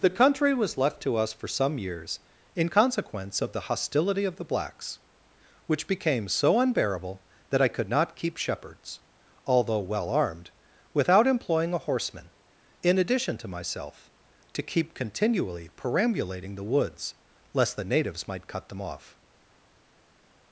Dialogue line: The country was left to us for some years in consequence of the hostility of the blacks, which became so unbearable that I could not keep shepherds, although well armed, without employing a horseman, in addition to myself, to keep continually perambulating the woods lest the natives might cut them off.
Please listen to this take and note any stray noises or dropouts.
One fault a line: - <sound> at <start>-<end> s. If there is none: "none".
none